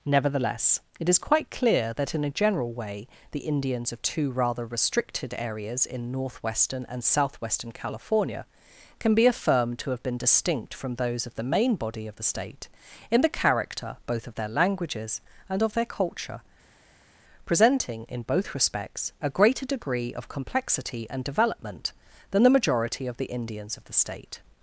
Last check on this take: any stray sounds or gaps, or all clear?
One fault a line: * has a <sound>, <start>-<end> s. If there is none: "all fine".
all fine